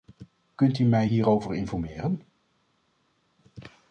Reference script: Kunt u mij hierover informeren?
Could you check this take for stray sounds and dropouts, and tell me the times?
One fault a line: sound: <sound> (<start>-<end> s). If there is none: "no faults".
no faults